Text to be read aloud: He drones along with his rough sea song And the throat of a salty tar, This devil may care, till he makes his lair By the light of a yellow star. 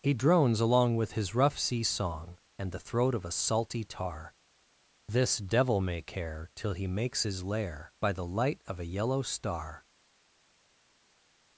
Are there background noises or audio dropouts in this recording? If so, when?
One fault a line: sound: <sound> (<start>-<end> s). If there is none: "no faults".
no faults